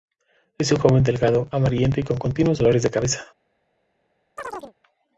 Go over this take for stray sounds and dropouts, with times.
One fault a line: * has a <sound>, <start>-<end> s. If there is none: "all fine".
* has a chirp, 4.4-4.7 s